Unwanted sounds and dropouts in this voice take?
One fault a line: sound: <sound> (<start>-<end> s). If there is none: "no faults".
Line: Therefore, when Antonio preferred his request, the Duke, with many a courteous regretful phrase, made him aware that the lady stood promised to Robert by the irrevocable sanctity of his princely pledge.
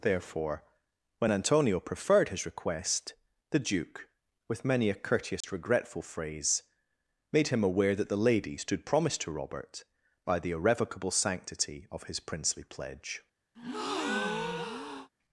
sound: dropout (5.4-5.4 s)
sound: breath (13.5-15.1 s)